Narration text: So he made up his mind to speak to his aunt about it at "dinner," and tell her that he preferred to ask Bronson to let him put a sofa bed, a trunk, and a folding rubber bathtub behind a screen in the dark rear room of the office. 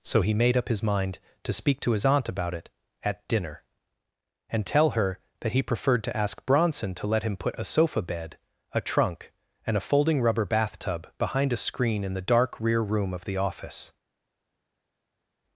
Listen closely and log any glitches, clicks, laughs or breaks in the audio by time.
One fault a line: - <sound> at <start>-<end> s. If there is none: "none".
none